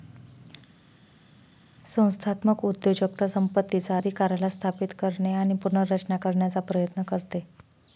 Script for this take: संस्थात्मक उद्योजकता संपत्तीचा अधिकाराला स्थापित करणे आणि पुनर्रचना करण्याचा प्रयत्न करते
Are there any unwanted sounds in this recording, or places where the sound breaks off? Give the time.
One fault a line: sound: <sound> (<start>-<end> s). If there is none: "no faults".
no faults